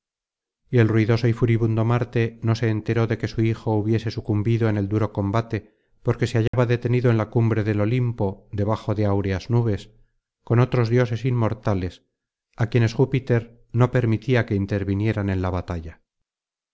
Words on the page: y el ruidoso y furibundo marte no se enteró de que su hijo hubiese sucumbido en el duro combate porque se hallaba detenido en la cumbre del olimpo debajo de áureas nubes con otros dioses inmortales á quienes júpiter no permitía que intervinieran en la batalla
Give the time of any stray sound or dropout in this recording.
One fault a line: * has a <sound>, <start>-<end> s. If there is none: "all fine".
* has a dropout, 6.5-6.5 s